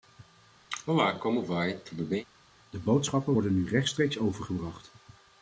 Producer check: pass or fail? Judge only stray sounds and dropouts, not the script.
fail